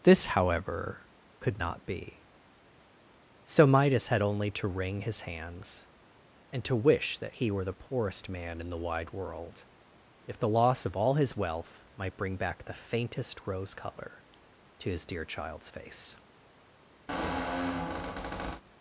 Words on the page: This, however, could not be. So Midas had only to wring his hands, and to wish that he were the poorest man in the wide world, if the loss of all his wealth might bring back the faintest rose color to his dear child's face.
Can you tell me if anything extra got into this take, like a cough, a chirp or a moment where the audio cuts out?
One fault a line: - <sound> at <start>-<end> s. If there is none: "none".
- squeak at 17.1-18.6 s